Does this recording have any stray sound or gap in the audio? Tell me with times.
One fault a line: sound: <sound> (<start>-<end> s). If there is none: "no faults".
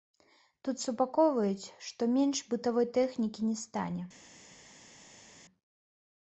no faults